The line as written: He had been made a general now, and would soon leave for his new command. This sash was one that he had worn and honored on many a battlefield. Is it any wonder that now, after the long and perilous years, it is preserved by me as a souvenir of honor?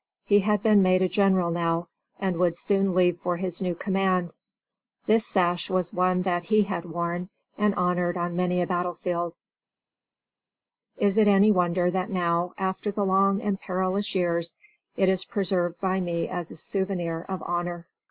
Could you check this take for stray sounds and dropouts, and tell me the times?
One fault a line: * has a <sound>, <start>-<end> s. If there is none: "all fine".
all fine